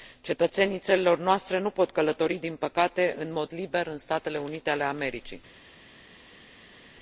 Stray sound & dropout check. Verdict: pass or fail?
pass